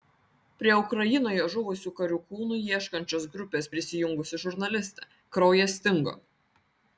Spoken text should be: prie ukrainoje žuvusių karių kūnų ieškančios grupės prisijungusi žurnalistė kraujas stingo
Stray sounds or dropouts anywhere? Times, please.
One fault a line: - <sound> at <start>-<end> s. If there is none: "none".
none